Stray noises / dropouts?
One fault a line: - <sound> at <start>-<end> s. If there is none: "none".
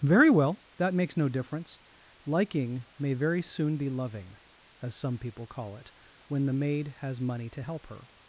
none